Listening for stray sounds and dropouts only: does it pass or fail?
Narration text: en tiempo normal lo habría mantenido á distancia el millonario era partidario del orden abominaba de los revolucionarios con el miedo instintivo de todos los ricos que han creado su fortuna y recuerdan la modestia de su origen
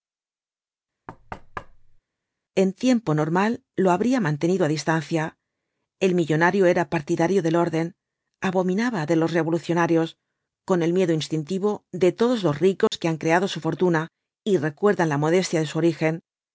fail